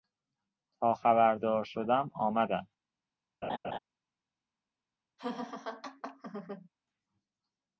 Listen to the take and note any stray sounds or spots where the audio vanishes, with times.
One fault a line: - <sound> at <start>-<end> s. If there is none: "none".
- laugh at 3.4-3.8 s
- laugh at 5.2-6.7 s